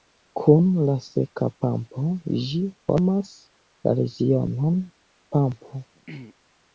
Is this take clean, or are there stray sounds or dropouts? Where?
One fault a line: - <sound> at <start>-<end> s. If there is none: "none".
- throat clearing at 6.0-6.3 s